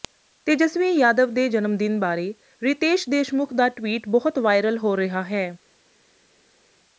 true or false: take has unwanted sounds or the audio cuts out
false